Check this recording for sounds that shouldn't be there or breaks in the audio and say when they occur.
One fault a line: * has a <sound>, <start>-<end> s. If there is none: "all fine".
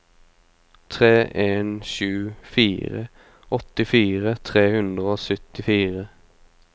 all fine